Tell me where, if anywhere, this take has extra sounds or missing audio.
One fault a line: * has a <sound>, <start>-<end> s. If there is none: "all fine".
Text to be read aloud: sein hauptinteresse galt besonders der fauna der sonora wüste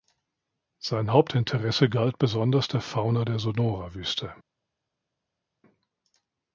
all fine